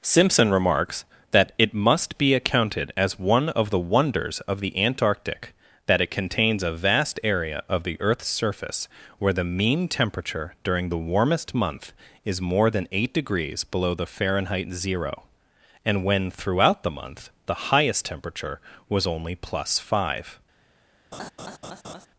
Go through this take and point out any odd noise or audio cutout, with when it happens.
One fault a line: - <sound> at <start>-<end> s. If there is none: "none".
- laugh at 21.1-22.1 s